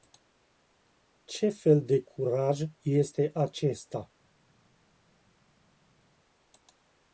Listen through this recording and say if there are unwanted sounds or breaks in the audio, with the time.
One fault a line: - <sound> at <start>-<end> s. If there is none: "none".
none